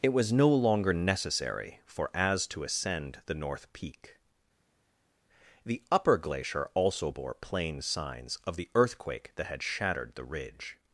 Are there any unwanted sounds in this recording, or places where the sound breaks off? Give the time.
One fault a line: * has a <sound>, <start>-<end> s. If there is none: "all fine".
all fine